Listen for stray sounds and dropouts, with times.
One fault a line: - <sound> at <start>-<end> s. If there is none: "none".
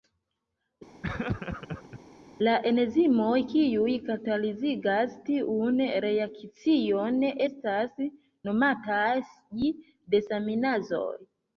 - laugh at 1.0-2.0 s